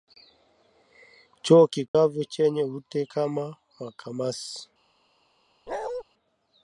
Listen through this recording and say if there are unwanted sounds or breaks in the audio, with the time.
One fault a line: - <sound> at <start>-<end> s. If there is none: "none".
- dropout at 1.9-1.9 s
- bark at 5.7-6.0 s